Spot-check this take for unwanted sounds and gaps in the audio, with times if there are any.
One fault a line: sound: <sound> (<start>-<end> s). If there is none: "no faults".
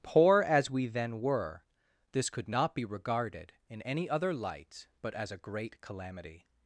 no faults